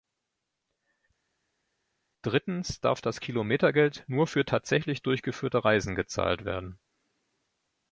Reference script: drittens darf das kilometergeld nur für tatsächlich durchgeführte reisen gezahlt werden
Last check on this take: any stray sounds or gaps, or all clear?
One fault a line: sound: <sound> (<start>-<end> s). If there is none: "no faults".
no faults